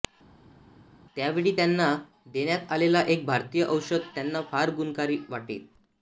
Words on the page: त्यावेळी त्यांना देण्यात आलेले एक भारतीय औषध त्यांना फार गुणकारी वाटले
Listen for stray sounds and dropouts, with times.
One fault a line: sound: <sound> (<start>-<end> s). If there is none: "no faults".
no faults